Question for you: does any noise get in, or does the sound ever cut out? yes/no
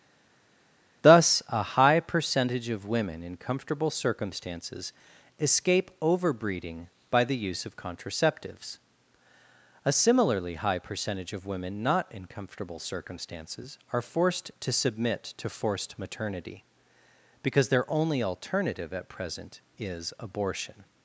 no